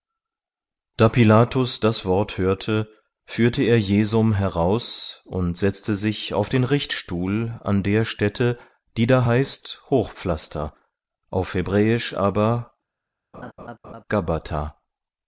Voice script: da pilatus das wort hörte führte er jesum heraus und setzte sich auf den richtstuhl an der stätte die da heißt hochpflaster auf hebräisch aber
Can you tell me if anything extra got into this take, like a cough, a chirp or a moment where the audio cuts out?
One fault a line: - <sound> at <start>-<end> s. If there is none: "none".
- laugh at 13.3-14.0 s